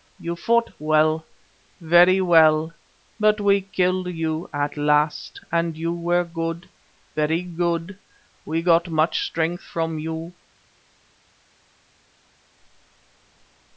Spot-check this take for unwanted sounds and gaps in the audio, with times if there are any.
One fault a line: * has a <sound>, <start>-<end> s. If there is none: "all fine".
all fine